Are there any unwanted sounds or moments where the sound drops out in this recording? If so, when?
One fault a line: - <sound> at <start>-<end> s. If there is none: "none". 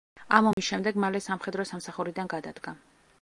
- dropout at 0.5-0.6 s